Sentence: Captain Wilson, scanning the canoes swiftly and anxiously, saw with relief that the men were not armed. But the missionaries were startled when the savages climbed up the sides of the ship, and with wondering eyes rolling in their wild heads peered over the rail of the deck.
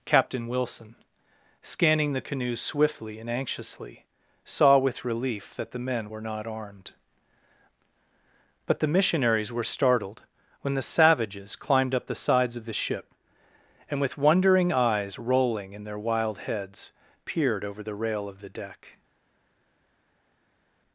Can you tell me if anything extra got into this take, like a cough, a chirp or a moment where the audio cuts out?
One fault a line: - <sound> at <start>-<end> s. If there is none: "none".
none